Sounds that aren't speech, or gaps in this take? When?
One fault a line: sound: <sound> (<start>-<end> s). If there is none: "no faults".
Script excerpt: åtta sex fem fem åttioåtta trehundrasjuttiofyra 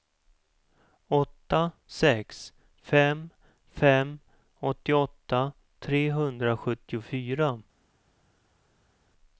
no faults